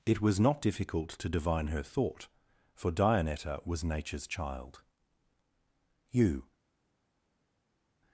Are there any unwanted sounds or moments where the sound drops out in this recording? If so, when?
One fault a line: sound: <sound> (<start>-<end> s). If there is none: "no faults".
no faults